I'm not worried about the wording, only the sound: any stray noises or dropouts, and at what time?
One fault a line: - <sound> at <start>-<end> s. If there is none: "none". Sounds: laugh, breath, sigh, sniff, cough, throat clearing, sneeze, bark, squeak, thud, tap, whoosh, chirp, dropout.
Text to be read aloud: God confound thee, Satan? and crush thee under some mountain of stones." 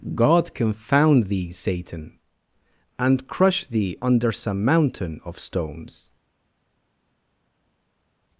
none